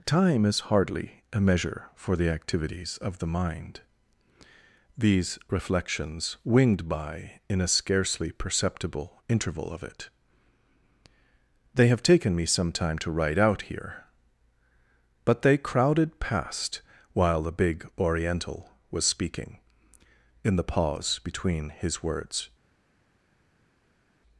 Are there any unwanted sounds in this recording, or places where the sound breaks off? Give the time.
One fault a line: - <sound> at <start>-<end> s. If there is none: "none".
none